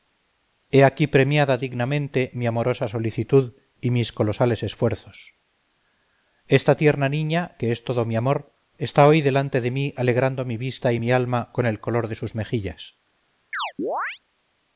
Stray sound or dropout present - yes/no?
yes